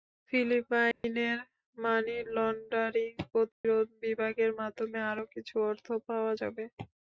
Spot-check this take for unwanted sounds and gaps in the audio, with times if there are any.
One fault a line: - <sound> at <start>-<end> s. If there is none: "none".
- dropout at 0.9-1.0 s
- dropout at 3.5-3.6 s